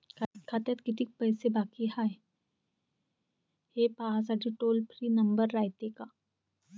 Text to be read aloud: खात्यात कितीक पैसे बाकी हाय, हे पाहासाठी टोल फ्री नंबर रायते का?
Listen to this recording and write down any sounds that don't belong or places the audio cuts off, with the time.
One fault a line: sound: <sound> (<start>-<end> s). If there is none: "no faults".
no faults